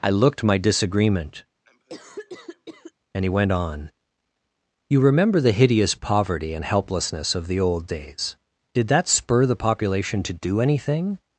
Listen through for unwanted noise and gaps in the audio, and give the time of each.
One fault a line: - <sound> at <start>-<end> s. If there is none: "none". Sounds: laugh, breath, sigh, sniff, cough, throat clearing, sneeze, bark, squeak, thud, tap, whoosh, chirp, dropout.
- cough at 1.6-2.9 s